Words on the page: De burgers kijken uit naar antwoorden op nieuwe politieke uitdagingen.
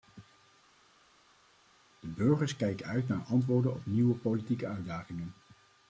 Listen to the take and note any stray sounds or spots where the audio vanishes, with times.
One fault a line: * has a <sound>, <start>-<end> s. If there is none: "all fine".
all fine